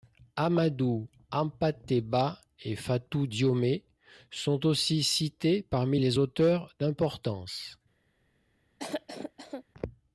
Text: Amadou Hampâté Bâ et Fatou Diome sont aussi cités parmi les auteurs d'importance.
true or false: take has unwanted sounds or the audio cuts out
true